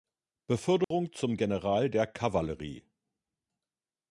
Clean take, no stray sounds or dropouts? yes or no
no